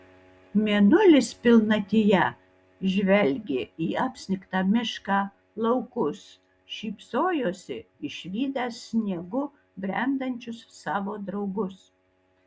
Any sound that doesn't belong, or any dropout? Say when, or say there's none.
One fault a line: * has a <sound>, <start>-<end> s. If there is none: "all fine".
all fine